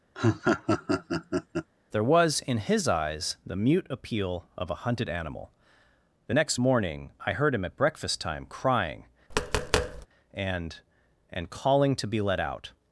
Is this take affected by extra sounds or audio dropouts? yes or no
yes